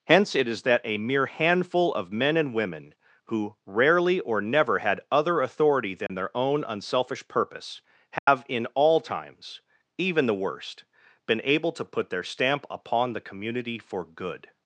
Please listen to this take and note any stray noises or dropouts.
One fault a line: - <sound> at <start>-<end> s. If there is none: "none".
- dropout at 6.1-6.1 s
- dropout at 8.2-8.3 s